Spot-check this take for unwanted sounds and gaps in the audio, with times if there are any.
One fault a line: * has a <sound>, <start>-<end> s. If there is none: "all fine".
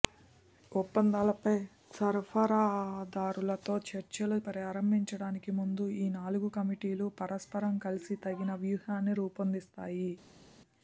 all fine